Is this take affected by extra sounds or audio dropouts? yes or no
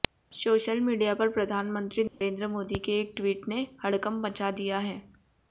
yes